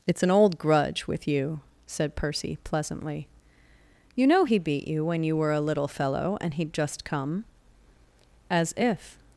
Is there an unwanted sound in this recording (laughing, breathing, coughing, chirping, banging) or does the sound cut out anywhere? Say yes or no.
no